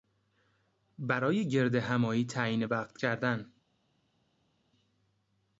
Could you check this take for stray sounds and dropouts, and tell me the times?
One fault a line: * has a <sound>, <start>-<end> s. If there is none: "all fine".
all fine